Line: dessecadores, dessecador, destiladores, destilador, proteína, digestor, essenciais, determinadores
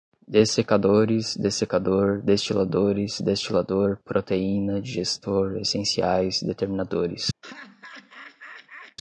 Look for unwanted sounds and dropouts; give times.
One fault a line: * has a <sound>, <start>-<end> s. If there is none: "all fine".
* has a laugh, 7.4-9.0 s